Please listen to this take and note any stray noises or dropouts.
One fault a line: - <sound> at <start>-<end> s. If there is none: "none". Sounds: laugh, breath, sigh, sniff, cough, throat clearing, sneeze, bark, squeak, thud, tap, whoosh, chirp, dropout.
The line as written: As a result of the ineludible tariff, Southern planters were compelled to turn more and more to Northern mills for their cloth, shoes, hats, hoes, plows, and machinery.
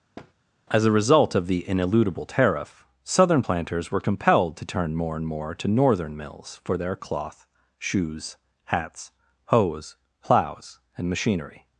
- thud at 0.2-0.3 s